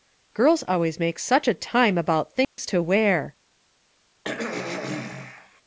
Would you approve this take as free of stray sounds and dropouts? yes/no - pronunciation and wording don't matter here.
no